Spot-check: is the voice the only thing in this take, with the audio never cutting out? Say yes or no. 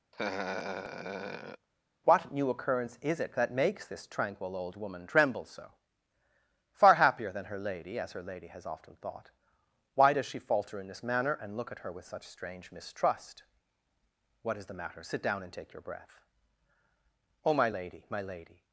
no